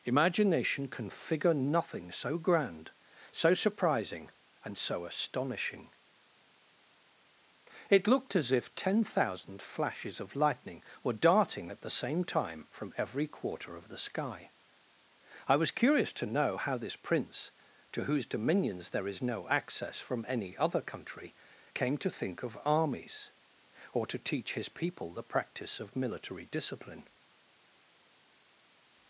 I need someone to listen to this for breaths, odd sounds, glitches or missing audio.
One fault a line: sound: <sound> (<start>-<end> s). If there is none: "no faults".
no faults